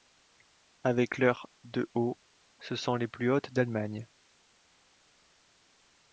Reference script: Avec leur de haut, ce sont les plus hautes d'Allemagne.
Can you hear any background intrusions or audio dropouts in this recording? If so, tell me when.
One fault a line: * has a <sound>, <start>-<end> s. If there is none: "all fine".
all fine